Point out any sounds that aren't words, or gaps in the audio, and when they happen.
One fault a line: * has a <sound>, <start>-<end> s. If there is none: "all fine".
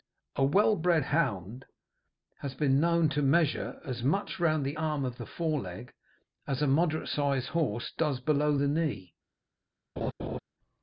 * has a laugh, 10.0-10.4 s